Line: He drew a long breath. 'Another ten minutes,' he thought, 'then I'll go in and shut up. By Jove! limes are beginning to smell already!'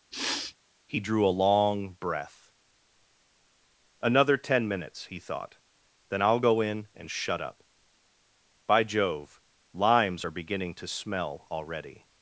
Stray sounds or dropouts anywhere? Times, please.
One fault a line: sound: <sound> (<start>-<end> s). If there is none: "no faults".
sound: sniff (0.1-0.5 s)